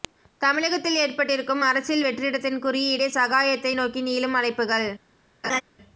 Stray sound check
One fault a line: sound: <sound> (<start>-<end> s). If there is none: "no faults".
sound: laugh (5.4-5.6 s)